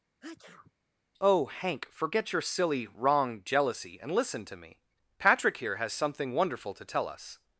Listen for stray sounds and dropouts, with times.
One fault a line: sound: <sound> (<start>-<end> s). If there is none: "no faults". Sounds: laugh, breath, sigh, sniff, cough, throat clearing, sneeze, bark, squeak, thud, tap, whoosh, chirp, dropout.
sound: sneeze (0.2-0.7 s)